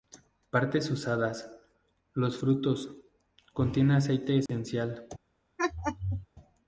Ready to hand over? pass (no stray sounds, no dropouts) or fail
fail